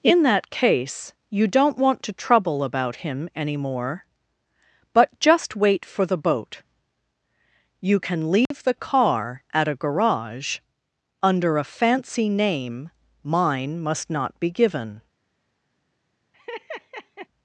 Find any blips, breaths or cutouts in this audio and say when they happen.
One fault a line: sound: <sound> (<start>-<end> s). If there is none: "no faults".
sound: dropout (8.5-8.5 s)
sound: laugh (16.3-17.3 s)